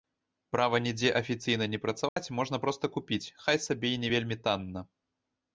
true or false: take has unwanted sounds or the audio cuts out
true